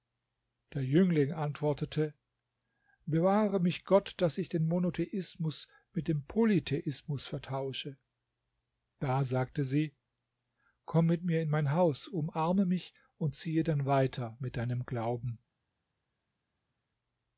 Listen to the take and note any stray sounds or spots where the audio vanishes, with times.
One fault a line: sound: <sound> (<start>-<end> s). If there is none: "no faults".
no faults